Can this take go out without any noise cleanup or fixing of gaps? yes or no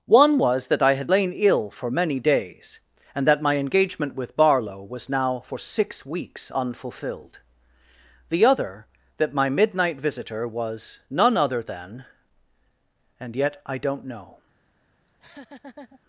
no